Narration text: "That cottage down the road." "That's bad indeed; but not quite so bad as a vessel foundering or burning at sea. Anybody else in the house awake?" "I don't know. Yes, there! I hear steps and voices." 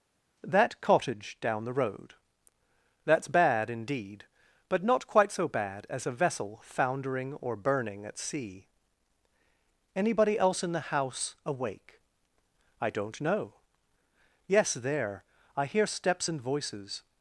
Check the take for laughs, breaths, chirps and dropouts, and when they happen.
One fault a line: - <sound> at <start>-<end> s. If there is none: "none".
none